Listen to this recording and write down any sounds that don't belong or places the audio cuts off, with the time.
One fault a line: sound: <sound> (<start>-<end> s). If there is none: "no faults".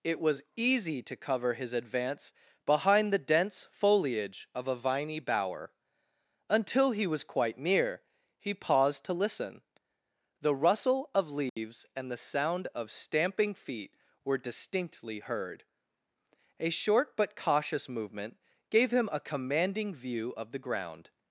sound: dropout (11.5-11.6 s)